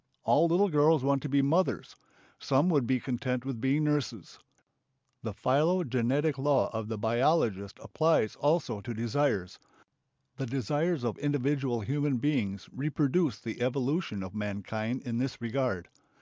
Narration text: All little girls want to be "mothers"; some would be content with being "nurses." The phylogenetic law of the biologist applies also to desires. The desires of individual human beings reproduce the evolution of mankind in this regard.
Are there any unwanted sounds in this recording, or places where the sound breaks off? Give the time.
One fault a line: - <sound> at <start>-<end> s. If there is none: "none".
none